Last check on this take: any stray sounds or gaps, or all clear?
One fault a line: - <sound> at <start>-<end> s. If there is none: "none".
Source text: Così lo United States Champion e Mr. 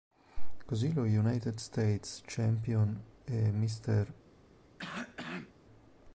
- cough at 4.8-5.5 s